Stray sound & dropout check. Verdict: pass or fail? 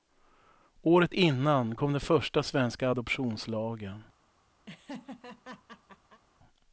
fail